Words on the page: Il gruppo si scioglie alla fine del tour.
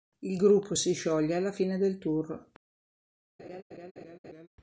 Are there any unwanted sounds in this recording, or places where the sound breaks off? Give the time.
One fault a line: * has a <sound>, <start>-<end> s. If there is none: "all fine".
* has a laugh, 3.4-4.5 s